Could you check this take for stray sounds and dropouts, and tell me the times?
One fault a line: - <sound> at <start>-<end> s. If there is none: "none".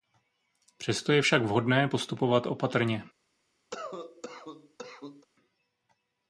- cough at 3.7-5.3 s